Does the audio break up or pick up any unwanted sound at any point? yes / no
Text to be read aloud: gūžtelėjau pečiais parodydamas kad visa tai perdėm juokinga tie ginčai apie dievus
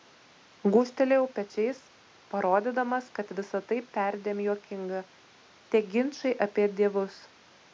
no